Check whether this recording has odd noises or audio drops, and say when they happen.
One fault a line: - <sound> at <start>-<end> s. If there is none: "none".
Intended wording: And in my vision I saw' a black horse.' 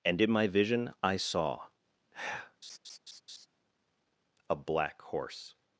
- laugh at 2.6-3.5 s